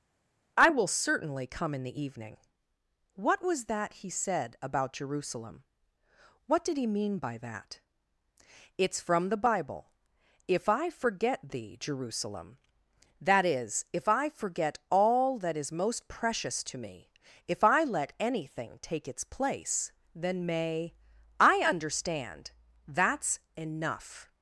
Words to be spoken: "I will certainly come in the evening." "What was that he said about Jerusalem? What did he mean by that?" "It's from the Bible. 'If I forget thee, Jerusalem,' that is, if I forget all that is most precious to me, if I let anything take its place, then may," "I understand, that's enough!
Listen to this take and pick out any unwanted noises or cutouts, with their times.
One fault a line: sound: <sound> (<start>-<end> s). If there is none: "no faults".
no faults